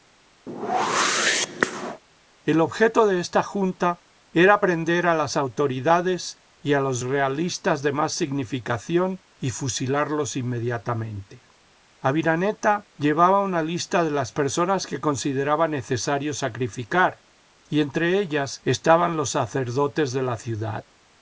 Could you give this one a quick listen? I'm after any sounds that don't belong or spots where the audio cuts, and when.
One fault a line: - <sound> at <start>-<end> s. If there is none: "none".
- whoosh at 0.5-2.0 s